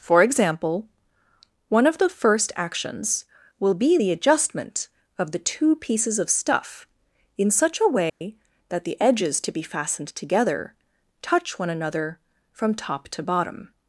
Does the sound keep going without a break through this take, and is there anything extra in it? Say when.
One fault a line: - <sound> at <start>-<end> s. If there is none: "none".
- dropout at 8.1-8.2 s